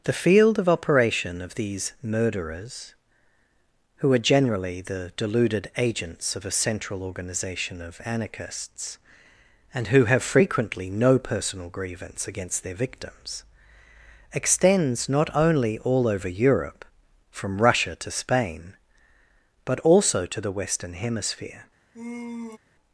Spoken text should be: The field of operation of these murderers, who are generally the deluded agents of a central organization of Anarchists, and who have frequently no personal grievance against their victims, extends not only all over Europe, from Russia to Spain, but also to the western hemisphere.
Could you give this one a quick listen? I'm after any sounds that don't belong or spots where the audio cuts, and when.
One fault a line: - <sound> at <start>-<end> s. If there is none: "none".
- sigh at 21.9-22.6 s